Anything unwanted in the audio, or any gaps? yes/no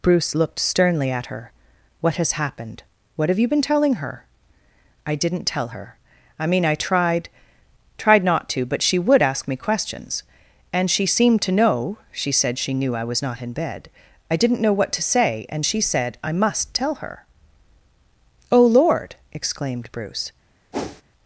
yes